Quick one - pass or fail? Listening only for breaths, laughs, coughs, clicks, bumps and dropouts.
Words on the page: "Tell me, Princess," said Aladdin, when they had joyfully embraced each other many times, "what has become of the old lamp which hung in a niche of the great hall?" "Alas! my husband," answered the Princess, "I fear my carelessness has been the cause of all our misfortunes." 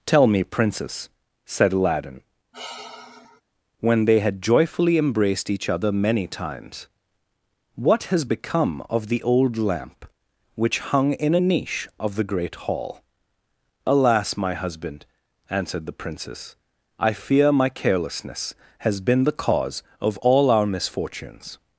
fail